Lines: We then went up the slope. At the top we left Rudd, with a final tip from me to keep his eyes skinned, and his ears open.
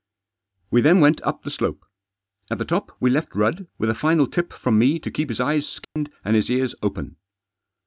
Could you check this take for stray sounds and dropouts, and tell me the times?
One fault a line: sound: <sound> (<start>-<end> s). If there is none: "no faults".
sound: dropout (5.8-6.0 s)